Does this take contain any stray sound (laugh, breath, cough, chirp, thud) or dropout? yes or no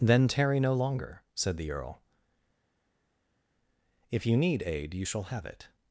no